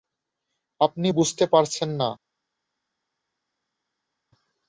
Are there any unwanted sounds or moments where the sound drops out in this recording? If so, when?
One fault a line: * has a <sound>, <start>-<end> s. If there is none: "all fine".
all fine